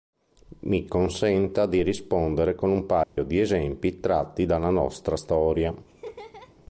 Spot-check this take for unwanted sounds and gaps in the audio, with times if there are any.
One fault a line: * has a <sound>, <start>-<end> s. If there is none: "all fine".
* has a dropout, 3.0-3.2 s
* has a laugh, 5.9-6.5 s